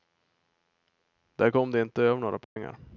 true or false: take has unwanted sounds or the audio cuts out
true